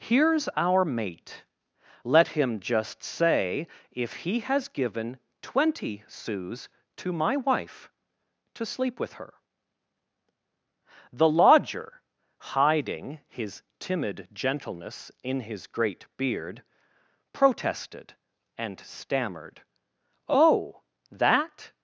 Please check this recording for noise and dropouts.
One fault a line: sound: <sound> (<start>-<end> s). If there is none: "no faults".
no faults